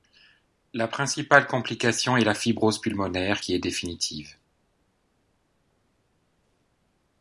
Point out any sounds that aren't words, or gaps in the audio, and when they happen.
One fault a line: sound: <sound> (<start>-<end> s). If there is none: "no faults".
no faults